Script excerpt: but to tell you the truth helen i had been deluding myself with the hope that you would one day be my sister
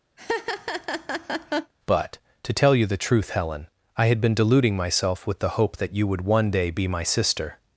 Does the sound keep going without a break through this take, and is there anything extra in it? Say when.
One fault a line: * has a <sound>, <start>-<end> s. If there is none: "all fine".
* has a laugh, 0.2-1.7 s